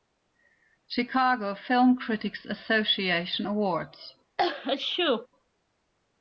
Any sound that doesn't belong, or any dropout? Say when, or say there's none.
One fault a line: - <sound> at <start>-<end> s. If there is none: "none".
- sneeze at 4.4-5.3 s